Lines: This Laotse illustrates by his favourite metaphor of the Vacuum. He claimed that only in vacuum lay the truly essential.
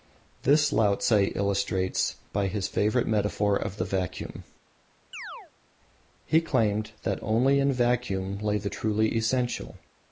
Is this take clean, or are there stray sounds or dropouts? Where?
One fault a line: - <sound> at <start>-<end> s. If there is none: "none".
- chirp at 5.1-5.5 s